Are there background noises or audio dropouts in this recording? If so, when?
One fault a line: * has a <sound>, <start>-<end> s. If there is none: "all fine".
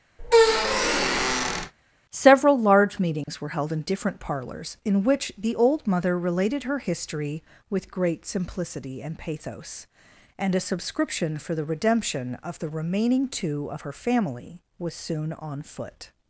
* has a squeak, 0.2-1.7 s
* has a dropout, 3.2-3.3 s